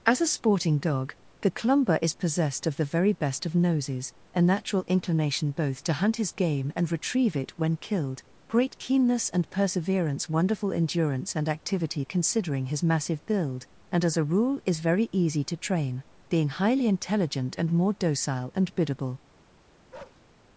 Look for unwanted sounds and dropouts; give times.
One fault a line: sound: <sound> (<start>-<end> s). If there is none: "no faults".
sound: bark (19.9-20.2 s)